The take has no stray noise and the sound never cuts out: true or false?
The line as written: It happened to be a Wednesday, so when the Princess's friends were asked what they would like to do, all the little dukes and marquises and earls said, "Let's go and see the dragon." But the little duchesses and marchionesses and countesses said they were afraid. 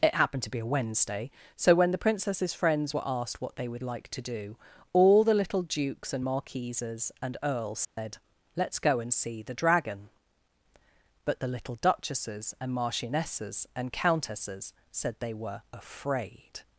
false